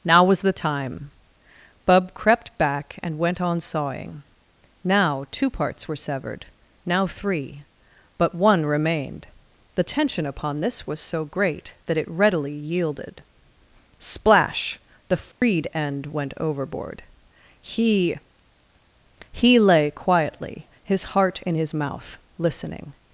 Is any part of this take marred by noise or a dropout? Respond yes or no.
yes